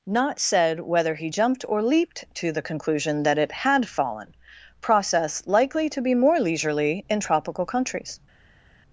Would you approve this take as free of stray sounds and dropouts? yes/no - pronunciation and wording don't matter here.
yes